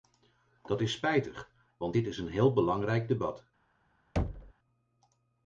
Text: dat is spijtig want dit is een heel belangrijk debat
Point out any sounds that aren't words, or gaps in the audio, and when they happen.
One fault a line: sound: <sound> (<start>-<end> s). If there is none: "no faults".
sound: thud (4.2-4.5 s)